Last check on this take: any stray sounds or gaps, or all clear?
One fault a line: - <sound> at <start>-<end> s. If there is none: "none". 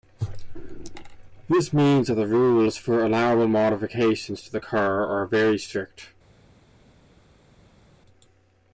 none